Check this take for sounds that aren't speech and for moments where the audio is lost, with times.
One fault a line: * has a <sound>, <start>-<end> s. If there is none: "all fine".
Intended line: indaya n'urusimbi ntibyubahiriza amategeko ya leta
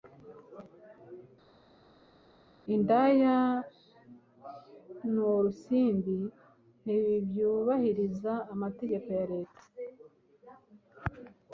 all fine